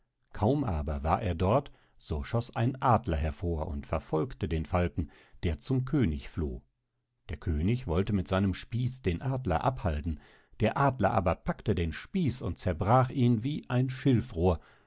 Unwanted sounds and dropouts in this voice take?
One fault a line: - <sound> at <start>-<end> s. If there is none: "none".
none